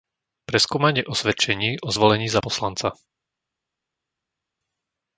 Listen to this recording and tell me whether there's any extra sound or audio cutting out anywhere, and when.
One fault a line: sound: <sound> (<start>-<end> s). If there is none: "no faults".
no faults